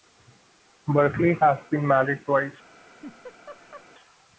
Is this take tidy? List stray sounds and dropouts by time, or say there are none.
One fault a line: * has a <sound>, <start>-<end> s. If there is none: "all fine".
* has a laugh, 2.8-3.9 s